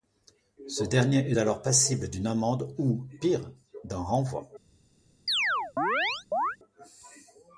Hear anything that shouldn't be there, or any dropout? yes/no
yes